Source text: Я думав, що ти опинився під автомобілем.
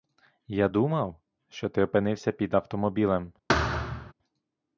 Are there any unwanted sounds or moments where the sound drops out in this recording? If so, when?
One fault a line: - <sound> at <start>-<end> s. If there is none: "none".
- thud at 3.5-4.1 s